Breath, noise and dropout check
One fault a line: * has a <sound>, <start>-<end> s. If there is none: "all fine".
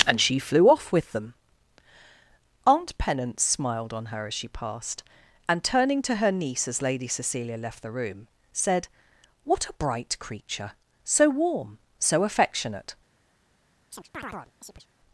* has a chirp, 13.9-14.9 s